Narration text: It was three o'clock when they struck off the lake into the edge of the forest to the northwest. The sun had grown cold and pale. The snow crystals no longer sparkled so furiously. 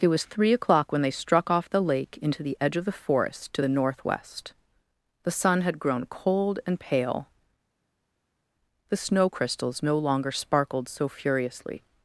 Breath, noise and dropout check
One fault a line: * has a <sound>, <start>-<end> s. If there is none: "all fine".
all fine